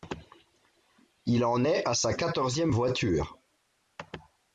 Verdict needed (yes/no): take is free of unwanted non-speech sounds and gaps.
yes